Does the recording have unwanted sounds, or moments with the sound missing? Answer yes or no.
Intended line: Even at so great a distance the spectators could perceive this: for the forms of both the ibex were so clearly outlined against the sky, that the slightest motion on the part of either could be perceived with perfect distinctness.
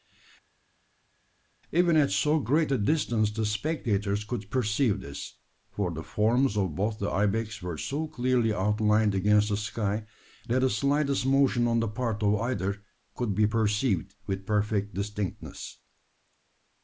no